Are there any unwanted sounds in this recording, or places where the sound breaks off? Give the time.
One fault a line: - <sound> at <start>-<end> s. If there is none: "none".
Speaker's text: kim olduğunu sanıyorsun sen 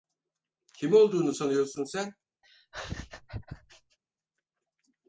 - laugh at 2.4-4.0 s